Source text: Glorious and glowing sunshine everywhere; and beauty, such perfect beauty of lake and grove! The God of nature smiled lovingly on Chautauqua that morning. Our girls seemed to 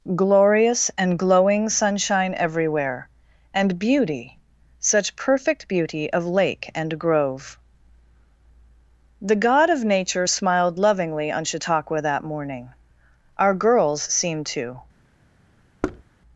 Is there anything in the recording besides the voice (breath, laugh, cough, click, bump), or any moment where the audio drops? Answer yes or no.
yes